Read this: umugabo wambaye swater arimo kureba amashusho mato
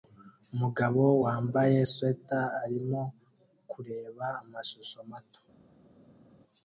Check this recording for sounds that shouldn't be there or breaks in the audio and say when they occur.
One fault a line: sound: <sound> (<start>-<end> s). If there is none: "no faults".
no faults